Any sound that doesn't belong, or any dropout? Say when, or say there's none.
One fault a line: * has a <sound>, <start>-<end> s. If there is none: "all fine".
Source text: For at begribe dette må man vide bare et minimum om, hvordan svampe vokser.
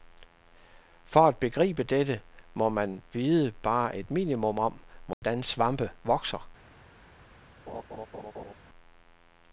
* has a dropout, 5.1-5.2 s
* has a laugh, 7.7-8.5 s